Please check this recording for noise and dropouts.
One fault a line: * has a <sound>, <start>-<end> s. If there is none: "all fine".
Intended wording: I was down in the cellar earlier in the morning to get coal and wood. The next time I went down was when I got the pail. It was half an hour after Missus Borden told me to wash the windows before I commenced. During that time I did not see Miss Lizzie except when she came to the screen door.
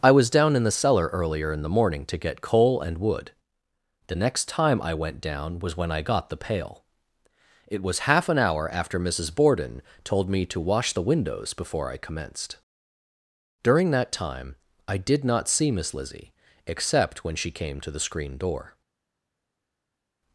all fine